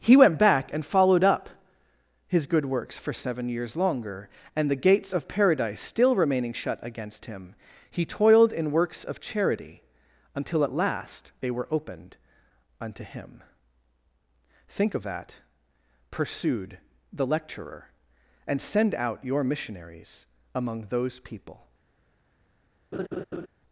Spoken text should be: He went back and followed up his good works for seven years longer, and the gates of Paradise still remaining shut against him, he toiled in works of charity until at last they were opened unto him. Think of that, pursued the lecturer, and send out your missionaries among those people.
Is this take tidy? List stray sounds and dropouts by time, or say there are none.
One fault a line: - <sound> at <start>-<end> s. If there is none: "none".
- laugh at 22.9-23.5 s